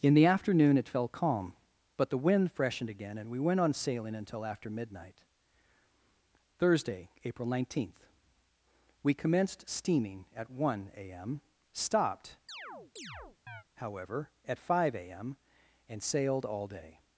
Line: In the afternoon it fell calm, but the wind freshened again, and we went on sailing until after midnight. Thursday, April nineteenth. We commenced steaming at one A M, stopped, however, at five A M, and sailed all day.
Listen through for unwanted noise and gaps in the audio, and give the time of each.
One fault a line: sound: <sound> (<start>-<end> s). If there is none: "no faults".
sound: chirp (12.5-13.6 s)